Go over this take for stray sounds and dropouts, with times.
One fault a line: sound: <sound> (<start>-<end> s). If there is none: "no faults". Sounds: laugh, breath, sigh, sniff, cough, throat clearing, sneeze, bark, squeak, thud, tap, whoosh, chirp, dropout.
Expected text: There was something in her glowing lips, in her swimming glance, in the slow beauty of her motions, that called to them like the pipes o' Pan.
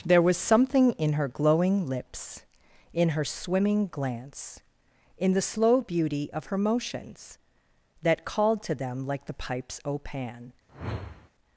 sound: whoosh (10.7-11.3 s)